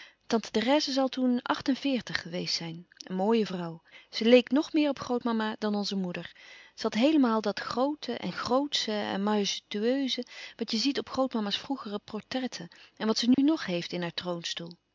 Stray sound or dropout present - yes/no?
yes